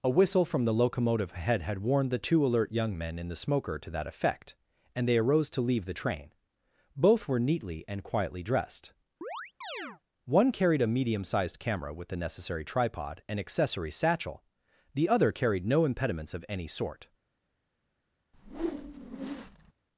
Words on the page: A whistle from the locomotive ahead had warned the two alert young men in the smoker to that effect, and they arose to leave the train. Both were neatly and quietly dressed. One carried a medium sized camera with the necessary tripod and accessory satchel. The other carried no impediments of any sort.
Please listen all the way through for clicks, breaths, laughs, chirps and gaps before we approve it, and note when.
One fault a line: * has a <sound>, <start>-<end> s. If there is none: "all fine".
* has a chirp, 9.2-10.0 s
* has a whoosh, 18.3-19.7 s